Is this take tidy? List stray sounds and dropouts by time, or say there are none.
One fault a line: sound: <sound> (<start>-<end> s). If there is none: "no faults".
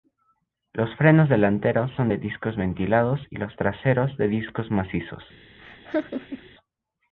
sound: laugh (5.6-6.5 s)